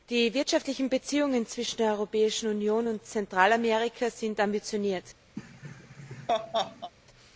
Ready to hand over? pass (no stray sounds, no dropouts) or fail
fail